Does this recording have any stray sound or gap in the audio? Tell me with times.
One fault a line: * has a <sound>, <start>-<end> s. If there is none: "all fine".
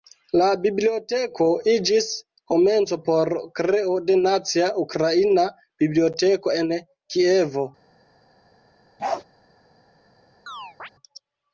* has a bark, 9.0-9.2 s
* has a chirp, 10.5-10.9 s